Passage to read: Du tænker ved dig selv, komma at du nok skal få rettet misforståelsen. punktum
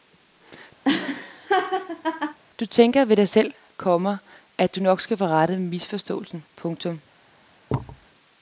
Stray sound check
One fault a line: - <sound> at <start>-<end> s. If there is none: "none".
- laugh at 0.8-2.4 s
- thud at 7.7-8.1 s